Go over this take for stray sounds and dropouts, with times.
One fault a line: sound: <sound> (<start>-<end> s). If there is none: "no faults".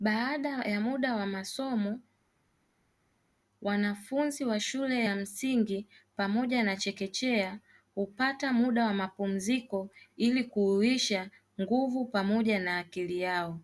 no faults